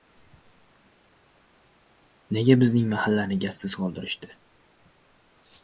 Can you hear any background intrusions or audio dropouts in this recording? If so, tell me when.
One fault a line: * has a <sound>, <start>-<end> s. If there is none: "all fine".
all fine